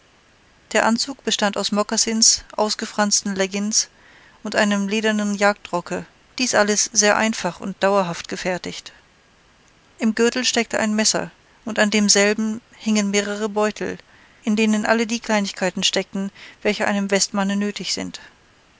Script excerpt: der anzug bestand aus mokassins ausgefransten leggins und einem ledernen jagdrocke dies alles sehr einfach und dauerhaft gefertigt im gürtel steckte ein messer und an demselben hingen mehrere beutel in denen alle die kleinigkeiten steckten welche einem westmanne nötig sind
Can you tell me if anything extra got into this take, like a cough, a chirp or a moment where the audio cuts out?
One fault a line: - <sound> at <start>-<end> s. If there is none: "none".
none